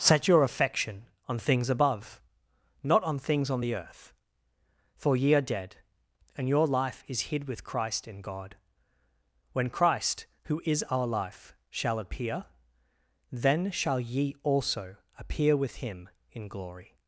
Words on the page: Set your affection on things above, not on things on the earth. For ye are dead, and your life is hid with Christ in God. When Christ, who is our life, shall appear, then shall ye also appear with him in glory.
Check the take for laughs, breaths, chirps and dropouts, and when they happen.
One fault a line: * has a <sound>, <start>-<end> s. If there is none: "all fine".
all fine